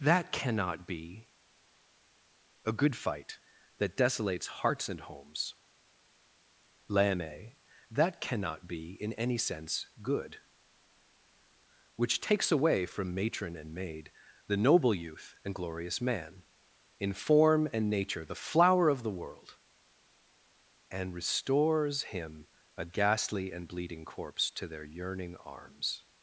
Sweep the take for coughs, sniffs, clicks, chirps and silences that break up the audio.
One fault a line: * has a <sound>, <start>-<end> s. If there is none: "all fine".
all fine